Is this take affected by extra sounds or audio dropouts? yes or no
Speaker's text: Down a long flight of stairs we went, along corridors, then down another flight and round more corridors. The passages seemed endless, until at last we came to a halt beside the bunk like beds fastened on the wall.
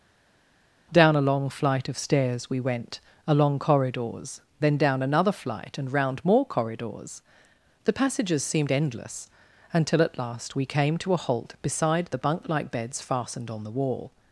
no